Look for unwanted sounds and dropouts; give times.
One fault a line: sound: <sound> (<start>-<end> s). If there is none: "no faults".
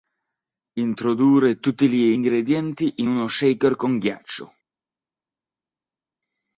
no faults